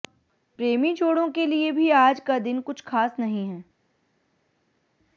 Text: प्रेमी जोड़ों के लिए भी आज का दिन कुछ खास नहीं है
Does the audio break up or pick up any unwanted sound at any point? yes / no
no